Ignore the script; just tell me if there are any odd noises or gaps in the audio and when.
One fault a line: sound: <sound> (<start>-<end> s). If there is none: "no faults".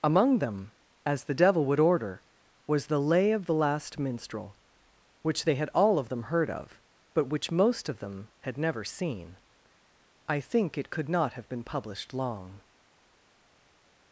no faults